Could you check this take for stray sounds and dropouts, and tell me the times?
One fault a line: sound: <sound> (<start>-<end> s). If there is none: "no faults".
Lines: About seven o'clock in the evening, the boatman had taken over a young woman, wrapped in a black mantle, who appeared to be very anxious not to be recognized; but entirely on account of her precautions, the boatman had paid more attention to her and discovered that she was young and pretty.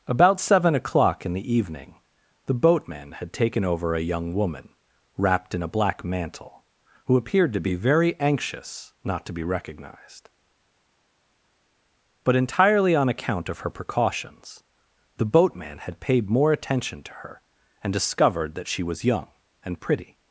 no faults